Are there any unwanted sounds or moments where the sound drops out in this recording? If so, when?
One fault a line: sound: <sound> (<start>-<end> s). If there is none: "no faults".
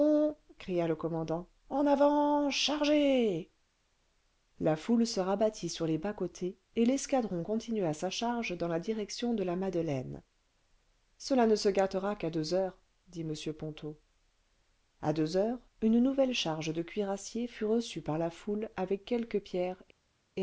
no faults